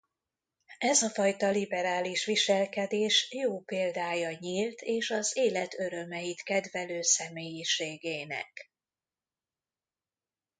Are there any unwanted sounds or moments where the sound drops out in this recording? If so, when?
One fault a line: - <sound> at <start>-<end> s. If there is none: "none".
none